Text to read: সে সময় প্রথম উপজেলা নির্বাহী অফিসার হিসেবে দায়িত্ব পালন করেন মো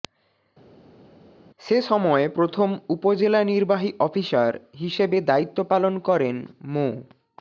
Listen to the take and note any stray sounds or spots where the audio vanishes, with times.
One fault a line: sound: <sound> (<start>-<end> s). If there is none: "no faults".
no faults